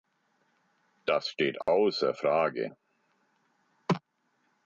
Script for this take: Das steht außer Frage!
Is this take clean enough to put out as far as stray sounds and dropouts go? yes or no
no